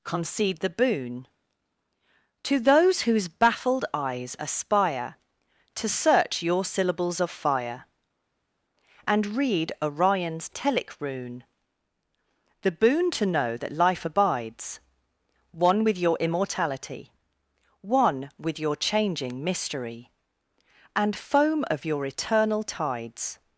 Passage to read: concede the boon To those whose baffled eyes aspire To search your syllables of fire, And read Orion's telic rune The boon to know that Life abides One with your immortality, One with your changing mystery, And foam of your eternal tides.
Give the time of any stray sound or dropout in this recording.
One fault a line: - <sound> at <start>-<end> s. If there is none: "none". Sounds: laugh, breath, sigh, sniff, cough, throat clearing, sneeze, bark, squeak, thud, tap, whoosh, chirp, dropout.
none